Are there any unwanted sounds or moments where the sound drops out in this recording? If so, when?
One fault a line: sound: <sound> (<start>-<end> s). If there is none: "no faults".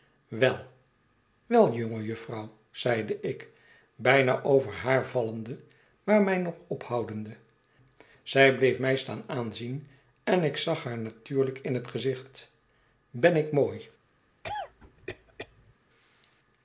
sound: cough (14.4-15.7 s)